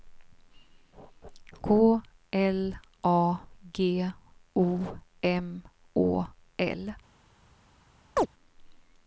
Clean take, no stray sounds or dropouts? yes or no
no